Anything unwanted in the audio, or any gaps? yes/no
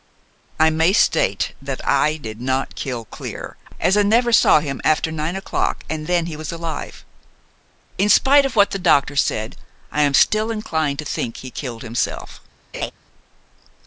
yes